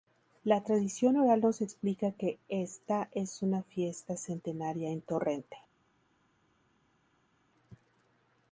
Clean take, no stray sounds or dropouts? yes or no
yes